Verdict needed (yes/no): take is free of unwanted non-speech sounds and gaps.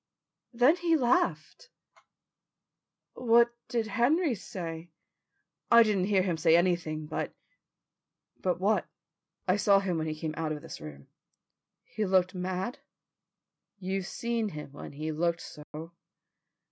no